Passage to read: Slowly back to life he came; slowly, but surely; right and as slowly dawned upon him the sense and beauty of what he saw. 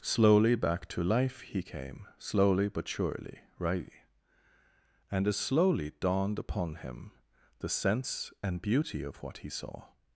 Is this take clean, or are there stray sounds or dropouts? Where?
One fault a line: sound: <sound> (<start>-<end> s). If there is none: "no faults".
no faults